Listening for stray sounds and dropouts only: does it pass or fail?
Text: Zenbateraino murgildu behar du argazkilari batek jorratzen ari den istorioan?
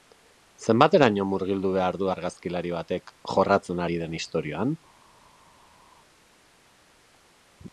pass